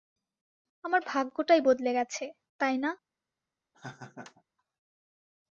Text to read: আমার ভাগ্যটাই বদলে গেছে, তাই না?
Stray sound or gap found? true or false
true